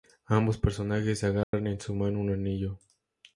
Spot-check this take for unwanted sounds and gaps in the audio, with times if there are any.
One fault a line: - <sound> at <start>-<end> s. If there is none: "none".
- dropout at 1.4-1.5 s